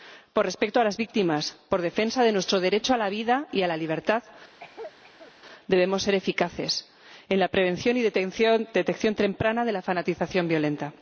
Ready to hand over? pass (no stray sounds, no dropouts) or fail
fail